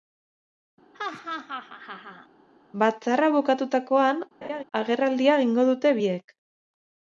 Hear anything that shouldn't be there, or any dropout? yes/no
yes